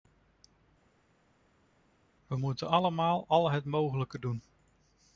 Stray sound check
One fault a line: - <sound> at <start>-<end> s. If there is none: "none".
none